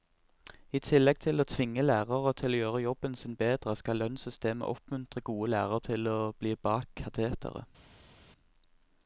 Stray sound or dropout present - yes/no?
no